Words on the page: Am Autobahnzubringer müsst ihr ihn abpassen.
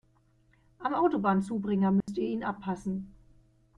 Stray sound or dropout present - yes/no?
yes